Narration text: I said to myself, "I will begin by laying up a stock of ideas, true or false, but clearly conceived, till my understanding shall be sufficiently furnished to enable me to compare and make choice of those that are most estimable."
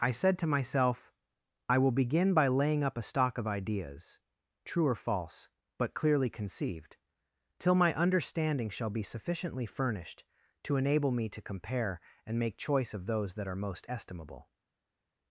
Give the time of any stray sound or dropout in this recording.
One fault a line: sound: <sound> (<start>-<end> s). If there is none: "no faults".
no faults